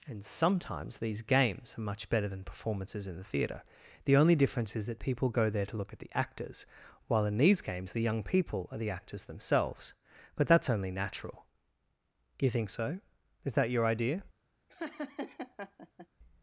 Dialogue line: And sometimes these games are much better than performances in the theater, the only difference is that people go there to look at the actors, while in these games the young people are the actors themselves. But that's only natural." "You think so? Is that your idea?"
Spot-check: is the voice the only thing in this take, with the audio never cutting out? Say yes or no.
no